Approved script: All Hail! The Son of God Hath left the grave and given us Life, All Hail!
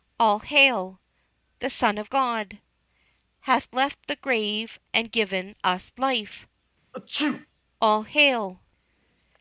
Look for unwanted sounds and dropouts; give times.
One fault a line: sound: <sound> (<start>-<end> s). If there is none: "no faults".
sound: sneeze (6.9-7.5 s)